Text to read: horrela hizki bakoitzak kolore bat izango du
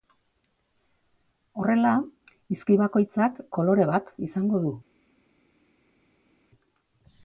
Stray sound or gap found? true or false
false